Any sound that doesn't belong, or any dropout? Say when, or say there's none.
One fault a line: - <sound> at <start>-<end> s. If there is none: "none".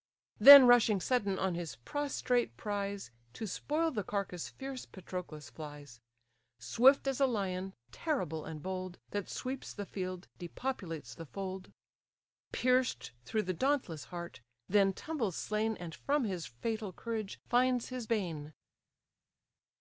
none